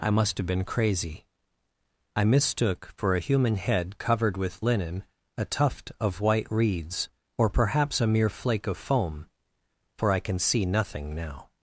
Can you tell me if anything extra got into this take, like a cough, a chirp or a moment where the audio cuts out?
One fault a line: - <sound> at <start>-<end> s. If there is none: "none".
none